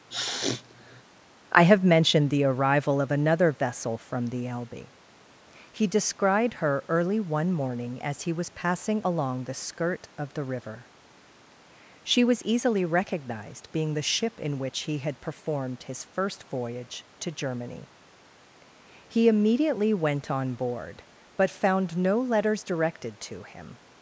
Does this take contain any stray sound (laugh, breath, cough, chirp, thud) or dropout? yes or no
yes